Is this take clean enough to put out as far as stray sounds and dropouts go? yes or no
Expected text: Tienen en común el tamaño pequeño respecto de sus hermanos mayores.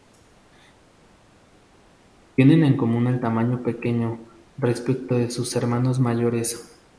yes